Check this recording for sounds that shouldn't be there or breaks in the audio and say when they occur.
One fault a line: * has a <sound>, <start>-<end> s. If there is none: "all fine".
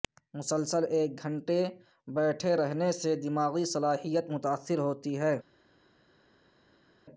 all fine